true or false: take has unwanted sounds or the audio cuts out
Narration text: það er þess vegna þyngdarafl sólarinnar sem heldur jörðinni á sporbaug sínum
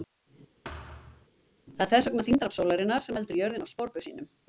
true